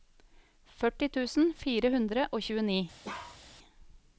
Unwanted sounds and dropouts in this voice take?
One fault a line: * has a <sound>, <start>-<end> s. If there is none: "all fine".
* has a bark, 3.0-3.4 s